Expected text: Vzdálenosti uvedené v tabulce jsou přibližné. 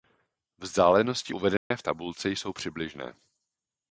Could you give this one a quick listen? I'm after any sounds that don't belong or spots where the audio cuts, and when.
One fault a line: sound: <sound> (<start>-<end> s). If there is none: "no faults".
sound: dropout (1.6-1.7 s)